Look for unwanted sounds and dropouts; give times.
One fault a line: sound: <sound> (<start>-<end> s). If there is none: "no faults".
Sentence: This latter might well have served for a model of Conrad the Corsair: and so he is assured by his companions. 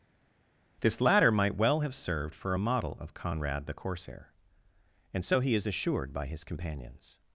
no faults